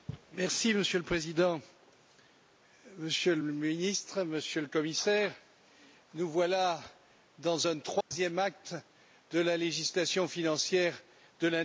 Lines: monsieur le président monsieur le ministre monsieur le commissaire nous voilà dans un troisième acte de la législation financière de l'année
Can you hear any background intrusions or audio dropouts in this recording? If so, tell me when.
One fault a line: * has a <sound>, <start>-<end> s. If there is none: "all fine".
* has a dropout, 8.0-8.1 s